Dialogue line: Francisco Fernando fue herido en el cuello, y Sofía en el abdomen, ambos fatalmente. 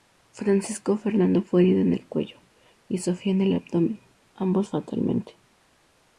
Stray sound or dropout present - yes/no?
no